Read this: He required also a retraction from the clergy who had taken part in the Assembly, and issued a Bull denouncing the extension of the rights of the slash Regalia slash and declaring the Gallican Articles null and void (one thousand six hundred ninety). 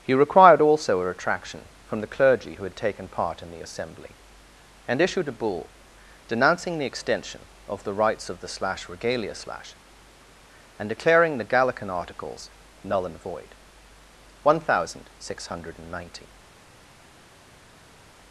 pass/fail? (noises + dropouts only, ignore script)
pass